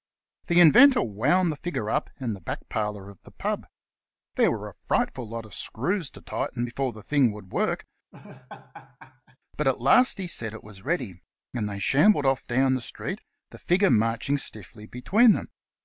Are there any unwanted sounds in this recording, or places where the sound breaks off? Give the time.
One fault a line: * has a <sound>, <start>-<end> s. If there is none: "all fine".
* has a laugh, 8.1-9.4 s